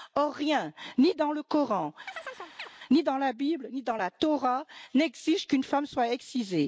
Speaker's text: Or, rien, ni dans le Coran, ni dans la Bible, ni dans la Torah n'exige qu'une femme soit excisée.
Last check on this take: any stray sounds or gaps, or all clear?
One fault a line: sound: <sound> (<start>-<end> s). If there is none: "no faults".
sound: chirp (2.1-2.7 s)